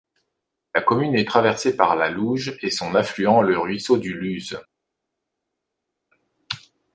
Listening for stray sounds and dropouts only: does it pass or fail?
pass